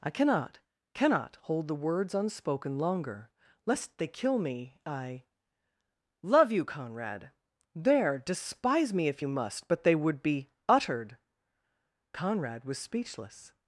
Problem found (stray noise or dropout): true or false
false